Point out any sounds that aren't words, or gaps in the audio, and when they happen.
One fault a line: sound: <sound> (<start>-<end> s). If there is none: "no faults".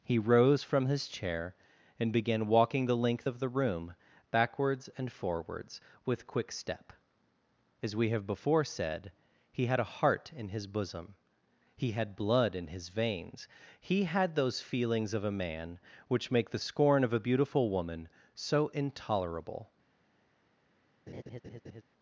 sound: laugh (21.1-21.8 s)